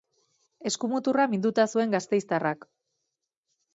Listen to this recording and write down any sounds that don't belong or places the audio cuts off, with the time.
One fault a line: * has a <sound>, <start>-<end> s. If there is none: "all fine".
all fine